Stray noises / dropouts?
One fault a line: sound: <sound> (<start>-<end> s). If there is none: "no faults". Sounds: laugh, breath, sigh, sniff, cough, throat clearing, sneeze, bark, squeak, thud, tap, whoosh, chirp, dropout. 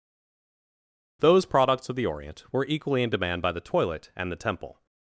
no faults